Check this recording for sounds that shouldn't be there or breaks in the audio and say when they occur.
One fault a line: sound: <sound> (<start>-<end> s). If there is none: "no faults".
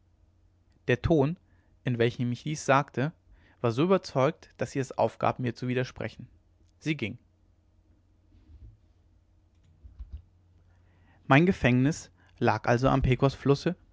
no faults